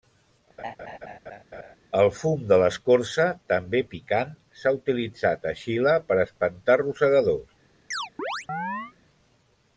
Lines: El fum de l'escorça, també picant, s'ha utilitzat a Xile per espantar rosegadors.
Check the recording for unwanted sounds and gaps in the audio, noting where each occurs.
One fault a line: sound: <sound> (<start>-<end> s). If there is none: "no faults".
sound: laugh (0.6-1.8 s)
sound: chirp (7.9-8.9 s)